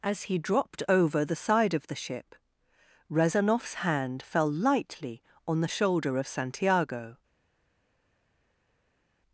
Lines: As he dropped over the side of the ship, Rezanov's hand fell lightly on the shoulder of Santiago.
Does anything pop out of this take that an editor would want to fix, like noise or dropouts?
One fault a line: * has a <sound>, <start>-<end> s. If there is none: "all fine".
all fine